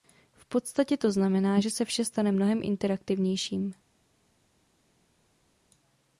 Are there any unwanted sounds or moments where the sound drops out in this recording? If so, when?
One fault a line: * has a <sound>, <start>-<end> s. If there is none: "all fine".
all fine